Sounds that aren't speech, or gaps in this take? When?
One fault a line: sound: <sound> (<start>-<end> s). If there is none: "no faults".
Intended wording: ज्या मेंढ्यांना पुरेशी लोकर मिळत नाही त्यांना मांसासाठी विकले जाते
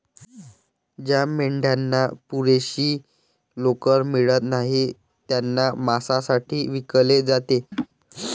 sound: laugh (7.7-7.9 s)